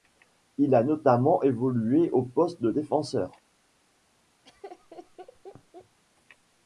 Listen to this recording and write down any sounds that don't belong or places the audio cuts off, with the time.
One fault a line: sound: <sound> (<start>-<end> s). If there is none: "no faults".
sound: laugh (4.4-6.0 s)